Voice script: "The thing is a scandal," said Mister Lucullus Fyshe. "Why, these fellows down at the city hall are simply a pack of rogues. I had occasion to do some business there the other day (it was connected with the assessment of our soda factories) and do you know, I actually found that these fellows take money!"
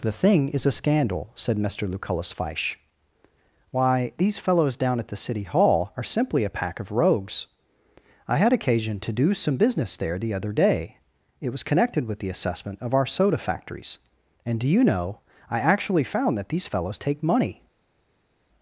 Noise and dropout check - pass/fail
pass